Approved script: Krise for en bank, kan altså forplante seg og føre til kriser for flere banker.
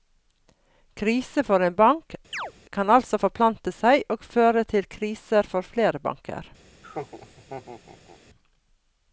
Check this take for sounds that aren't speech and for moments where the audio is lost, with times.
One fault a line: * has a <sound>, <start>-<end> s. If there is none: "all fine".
* has a chirp, 2.3-2.5 s
* has a laugh, 6.8-8.2 s